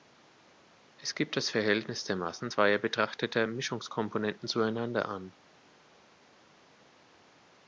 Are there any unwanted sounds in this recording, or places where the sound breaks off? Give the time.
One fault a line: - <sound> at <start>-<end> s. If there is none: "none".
none